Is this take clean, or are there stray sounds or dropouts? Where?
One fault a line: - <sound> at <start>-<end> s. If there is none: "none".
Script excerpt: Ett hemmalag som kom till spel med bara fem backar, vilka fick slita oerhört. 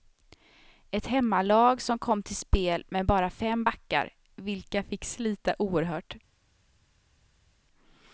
none